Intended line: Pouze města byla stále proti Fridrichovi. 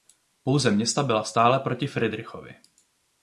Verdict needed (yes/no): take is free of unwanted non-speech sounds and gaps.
yes